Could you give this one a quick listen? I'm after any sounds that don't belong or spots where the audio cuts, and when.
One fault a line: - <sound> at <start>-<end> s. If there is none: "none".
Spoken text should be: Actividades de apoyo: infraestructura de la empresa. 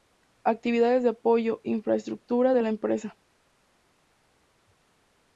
none